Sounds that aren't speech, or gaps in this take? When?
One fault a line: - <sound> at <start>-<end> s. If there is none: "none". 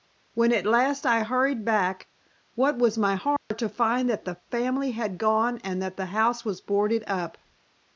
- dropout at 3.4-3.5 s